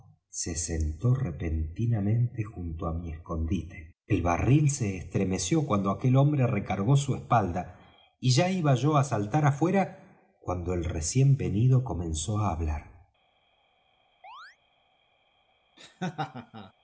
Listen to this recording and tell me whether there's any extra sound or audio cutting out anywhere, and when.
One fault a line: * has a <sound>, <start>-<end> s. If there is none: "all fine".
* has a chirp, 14.2-14.6 s
* has a laugh, 15.8-16.7 s